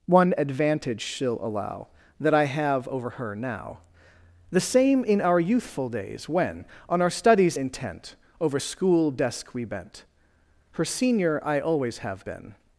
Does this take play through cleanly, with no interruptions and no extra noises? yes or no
yes